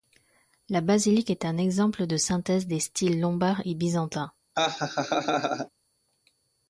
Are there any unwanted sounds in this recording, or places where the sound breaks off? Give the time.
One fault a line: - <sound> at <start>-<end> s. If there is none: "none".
- laugh at 4.5-5.7 s